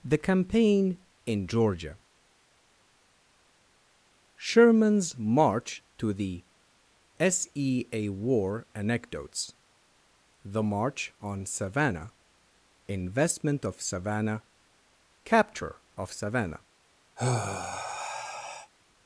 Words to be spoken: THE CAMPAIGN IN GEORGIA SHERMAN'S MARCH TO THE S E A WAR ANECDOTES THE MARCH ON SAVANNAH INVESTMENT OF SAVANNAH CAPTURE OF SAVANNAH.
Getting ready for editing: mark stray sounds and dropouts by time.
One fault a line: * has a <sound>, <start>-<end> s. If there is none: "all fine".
* has a sigh, 17.2-18.7 s